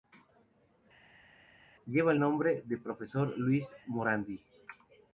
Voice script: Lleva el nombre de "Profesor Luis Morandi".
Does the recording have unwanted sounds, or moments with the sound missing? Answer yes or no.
no